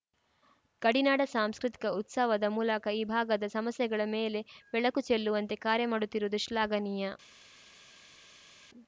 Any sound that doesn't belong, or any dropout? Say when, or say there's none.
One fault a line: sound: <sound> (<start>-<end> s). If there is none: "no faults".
no faults